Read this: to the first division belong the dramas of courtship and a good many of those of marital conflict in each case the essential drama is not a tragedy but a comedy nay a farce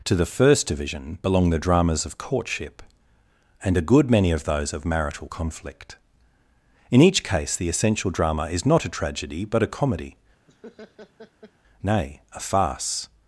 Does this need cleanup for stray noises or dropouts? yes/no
yes